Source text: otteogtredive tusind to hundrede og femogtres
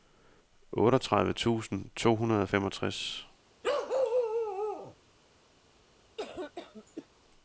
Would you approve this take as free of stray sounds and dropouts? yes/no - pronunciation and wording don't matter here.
no